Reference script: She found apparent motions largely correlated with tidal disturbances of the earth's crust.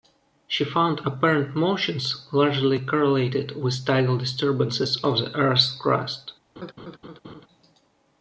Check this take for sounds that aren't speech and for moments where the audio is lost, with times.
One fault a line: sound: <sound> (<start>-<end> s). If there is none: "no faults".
sound: laugh (6.6-7.5 s)